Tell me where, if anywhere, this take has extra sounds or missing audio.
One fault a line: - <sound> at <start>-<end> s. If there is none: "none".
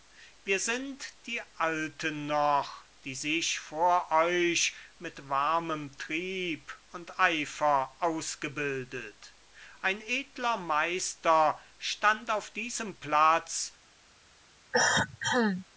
- cough at 14.7-15.7 s